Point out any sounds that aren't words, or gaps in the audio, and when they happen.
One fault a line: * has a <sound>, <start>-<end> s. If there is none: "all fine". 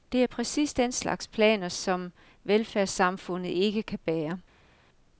all fine